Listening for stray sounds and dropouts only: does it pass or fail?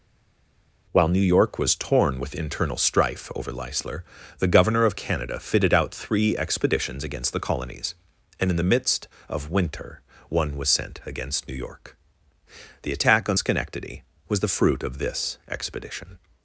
pass